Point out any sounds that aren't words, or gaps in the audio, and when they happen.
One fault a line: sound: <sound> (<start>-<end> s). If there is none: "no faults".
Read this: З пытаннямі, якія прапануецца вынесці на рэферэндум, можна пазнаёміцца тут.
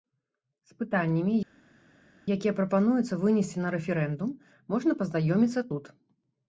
no faults